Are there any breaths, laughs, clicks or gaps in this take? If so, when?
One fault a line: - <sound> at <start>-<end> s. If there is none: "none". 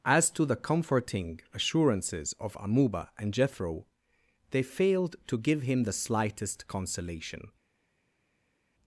none